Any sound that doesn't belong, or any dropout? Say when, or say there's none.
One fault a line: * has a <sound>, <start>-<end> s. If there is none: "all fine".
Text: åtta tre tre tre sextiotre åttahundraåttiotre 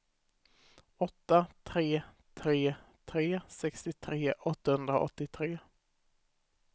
all fine